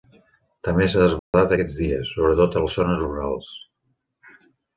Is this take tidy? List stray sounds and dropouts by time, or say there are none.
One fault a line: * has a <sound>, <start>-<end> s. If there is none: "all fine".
* has a dropout, 1.2-1.3 s